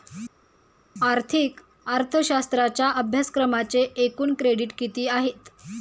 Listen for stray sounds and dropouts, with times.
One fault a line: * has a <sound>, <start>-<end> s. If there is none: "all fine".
all fine